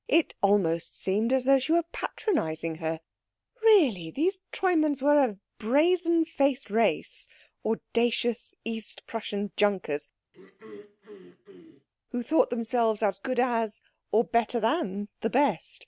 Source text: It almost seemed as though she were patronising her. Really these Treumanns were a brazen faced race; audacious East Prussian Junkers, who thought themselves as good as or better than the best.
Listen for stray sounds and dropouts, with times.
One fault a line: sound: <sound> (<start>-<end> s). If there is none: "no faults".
sound: throat clearing (10.3-11.9 s)